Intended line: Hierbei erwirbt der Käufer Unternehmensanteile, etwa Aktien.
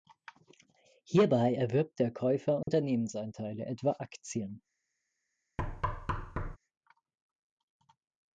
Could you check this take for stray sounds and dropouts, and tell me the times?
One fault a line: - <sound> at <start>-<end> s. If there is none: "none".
- dropout at 2.6-2.7 s
- thud at 5.6-6.6 s